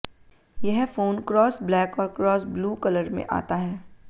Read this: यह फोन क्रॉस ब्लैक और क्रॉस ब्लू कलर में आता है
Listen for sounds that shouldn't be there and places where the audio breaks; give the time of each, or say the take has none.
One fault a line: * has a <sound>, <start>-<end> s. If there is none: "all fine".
all fine